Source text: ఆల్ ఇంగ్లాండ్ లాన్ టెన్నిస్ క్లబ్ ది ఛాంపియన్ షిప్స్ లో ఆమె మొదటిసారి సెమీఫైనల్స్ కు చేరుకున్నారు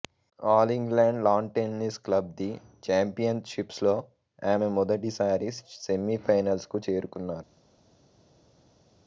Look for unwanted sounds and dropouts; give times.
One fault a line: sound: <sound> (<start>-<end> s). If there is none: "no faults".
no faults